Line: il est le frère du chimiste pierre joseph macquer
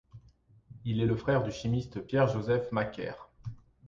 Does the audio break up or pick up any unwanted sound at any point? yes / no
no